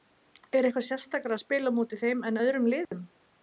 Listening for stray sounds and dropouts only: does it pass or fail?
fail